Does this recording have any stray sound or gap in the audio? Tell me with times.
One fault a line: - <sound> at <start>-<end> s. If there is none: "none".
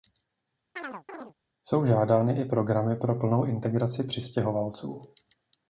- chirp at 0.8-1.3 s